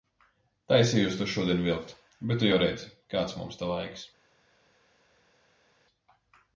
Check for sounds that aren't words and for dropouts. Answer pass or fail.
pass